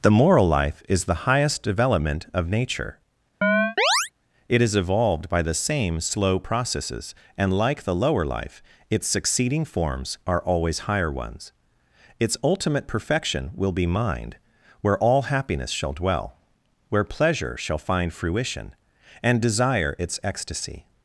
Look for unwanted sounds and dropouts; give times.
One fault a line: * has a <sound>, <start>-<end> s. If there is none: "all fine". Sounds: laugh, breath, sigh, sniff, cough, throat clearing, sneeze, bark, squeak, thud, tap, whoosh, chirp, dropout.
* has a chirp, 3.4-4.1 s